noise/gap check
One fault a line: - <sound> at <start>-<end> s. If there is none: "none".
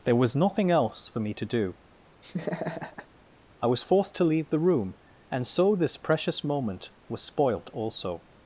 - laugh at 2.2-3.1 s